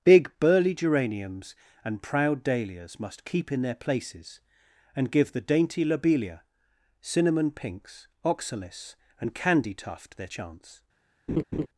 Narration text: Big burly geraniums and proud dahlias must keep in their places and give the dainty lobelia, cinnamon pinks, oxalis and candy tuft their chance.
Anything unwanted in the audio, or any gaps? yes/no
yes